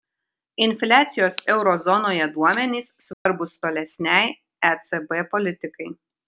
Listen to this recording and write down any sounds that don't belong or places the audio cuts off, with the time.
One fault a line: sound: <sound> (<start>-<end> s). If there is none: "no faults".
sound: dropout (3.1-3.3 s)